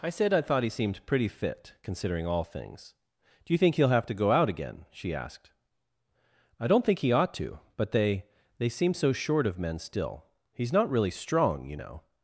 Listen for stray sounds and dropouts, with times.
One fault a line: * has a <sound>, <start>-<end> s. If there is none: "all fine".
all fine